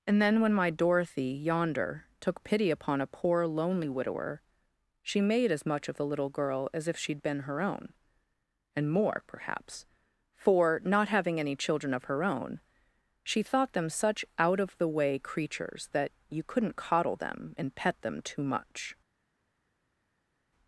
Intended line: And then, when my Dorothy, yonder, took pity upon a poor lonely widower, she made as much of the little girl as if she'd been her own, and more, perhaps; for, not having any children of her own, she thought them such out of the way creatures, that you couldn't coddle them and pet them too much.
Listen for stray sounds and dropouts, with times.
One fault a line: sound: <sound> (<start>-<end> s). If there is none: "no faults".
no faults